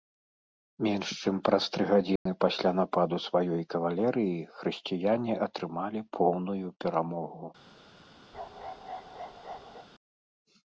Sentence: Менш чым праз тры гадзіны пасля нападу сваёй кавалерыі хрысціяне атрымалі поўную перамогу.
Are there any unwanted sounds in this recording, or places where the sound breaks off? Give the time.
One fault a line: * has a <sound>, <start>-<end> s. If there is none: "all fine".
* has a dropout, 2.2-2.3 s
* has a bark, 8.3-9.9 s